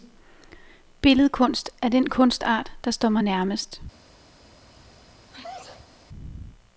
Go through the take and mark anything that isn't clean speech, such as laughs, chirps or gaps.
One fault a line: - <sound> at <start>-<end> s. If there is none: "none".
- sneeze at 4.7-5.9 s